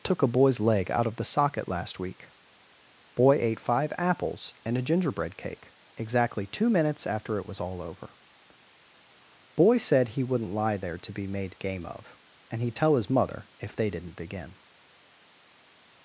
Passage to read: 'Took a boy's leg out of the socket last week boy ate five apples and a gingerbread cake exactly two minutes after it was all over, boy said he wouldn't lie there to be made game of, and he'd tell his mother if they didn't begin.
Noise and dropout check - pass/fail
pass